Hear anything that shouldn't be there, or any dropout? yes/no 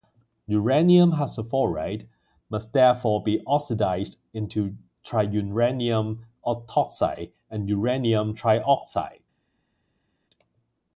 no